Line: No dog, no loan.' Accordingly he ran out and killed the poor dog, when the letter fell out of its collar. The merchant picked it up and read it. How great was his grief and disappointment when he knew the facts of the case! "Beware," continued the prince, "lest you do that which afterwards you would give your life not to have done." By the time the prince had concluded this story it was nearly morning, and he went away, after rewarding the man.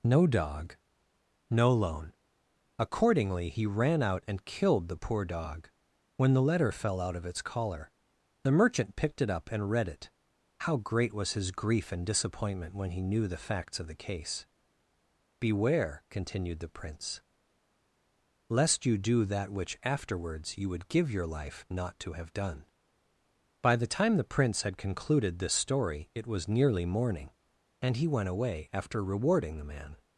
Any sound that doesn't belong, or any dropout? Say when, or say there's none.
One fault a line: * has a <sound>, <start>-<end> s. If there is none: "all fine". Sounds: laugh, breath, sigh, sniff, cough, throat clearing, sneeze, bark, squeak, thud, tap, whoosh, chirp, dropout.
all fine